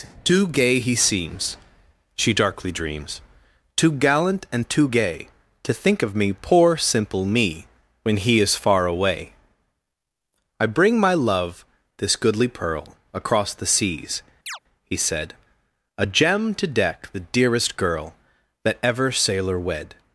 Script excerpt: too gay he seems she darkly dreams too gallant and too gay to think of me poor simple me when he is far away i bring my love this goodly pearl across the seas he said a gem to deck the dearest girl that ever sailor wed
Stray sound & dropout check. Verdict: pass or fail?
fail